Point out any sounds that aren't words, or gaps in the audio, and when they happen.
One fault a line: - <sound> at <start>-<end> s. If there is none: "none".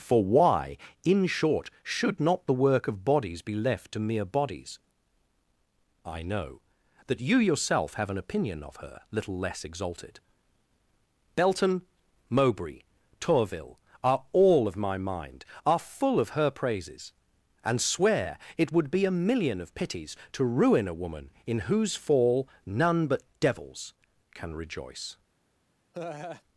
- laugh at 25.9-26.4 s